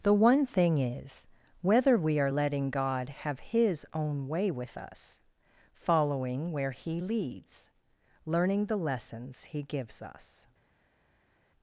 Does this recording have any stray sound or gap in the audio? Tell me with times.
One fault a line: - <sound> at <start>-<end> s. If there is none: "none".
none